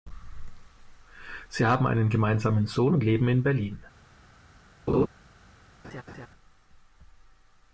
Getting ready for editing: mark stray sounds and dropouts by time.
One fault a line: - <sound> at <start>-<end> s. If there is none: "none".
- laugh at 4.9-5.1 s
- laugh at 5.8-6.3 s